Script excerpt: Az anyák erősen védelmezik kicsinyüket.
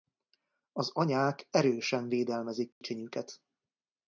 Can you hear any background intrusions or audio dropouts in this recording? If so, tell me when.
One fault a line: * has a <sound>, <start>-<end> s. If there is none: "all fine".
* has a dropout, 2.7-2.8 s